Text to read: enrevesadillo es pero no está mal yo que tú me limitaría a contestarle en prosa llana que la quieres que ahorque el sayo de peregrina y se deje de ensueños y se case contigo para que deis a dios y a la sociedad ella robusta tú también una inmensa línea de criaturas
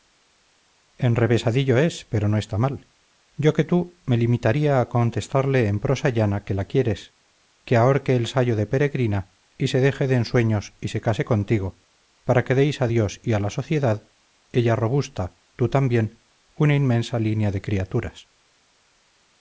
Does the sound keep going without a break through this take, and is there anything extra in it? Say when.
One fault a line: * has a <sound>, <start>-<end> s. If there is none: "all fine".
all fine